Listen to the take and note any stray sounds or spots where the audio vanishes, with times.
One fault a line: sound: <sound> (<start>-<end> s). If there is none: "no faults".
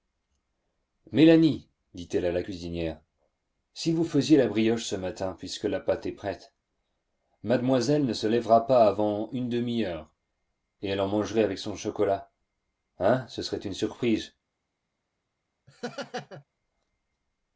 sound: laugh (15.7-16.4 s)